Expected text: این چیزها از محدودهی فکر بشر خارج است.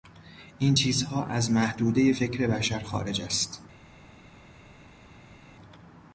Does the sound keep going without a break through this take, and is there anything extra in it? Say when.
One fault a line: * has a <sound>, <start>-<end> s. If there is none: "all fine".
all fine